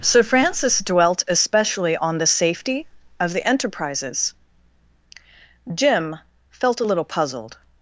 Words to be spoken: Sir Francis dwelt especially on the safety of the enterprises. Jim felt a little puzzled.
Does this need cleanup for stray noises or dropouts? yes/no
no